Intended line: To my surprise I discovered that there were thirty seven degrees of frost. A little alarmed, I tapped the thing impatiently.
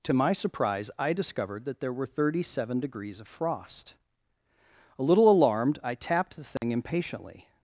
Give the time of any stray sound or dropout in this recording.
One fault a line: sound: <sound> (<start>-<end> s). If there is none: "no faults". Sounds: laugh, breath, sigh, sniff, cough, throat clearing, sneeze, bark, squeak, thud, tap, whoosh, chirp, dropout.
sound: dropout (6.6-6.6 s)